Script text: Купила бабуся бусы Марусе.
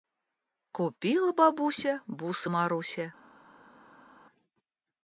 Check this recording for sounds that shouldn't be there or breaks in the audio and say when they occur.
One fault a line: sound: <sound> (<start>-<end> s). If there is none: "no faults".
no faults